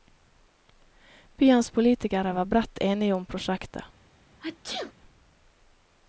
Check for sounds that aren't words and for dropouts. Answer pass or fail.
fail